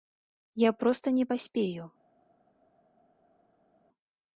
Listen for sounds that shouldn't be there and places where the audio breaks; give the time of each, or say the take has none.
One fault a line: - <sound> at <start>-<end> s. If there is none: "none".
none